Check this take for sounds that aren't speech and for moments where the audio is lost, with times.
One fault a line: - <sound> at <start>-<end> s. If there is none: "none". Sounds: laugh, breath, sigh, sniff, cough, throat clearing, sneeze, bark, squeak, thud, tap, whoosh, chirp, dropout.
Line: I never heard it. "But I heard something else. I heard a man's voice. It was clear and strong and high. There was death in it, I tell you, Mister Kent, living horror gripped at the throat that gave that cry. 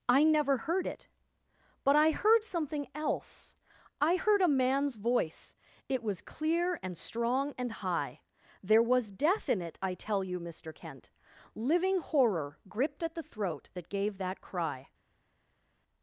none